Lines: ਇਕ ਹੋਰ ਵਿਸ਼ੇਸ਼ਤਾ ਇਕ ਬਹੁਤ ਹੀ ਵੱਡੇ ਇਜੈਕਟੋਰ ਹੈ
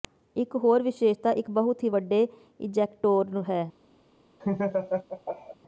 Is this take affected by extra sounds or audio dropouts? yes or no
yes